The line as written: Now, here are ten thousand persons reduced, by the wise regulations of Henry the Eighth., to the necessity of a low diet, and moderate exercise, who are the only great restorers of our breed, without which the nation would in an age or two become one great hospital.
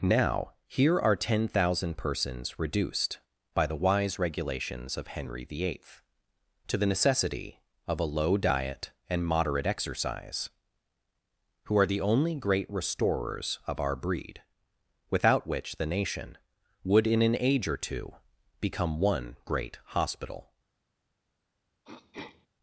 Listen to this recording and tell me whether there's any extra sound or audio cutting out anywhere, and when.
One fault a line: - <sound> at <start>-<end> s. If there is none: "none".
- throat clearing at 21.8-22.5 s